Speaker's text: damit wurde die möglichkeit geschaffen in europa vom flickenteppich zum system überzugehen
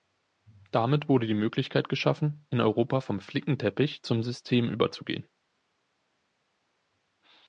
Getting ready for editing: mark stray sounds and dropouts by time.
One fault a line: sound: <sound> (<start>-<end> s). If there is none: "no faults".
no faults